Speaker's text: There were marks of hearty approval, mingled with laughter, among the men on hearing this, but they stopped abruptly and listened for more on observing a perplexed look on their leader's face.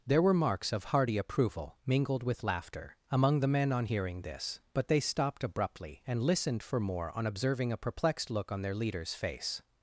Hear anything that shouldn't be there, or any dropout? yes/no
no